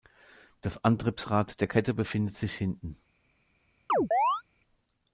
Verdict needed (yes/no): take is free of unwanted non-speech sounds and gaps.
no